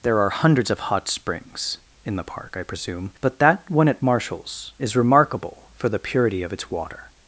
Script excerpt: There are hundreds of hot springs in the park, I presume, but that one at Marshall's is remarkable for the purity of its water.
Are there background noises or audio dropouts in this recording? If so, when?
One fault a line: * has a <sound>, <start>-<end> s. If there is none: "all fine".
all fine